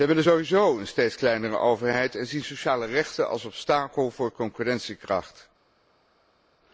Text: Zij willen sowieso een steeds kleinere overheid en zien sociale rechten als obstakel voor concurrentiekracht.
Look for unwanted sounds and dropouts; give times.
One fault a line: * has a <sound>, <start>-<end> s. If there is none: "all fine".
all fine